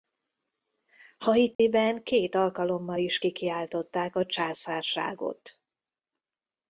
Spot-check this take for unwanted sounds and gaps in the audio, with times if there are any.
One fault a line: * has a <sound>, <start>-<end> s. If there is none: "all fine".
* has a dropout, 1.5-1.6 s